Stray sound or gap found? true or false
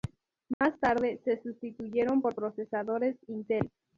true